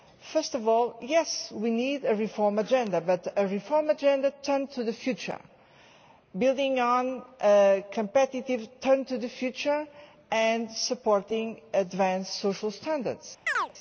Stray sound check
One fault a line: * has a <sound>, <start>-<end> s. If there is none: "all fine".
* has a chirp, 13.5-13.7 s